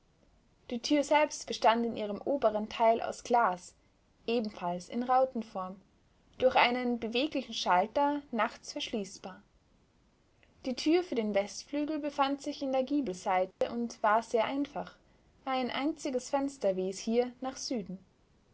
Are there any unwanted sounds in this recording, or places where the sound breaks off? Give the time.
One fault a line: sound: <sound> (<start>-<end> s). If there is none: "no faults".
sound: dropout (13.5-13.6 s)